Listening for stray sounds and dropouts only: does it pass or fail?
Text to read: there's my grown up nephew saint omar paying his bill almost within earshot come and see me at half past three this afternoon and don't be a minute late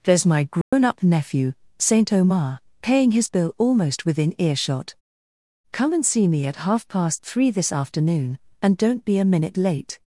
fail